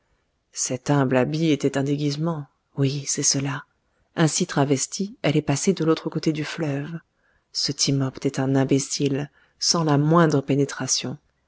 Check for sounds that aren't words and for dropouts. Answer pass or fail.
pass